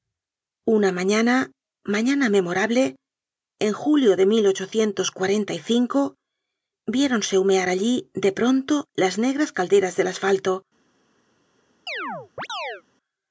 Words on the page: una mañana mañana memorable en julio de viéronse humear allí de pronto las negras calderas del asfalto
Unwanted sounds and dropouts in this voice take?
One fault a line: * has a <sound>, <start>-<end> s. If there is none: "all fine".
* has a chirp, 11.9-12.8 s